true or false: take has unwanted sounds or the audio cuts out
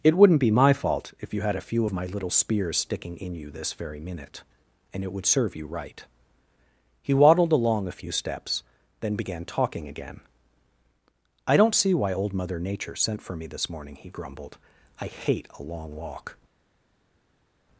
false